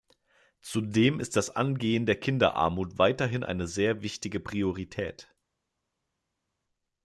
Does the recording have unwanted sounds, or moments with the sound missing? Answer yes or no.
no